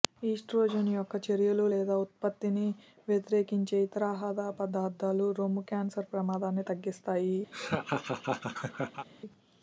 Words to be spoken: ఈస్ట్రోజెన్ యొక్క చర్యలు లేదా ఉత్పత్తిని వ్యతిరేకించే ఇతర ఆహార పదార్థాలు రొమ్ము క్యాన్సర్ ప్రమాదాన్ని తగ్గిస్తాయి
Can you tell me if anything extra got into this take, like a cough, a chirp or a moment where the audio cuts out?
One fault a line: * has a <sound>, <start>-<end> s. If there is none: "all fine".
* has a laugh, 7.5-9.1 s